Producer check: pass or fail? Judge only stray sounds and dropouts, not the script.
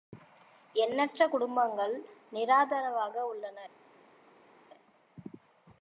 pass